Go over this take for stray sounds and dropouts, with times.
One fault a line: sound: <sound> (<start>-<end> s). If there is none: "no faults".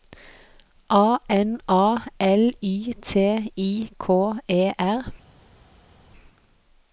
no faults